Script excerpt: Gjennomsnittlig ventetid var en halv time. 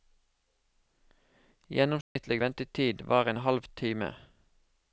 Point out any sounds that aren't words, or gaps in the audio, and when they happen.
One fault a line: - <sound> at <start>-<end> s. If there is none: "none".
- dropout at 2.0-2.2 s